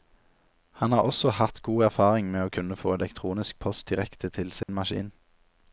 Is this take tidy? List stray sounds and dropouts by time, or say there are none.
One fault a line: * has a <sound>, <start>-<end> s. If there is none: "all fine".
* has a dropout, 4.6-4.7 s